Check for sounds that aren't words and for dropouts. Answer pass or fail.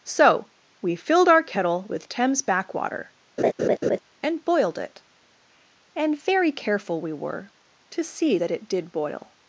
fail